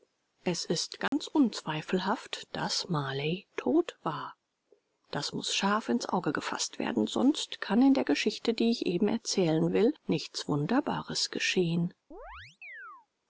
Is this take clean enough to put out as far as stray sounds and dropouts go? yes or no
no